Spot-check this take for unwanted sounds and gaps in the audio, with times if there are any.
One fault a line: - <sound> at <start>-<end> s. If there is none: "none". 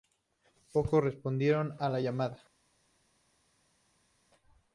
none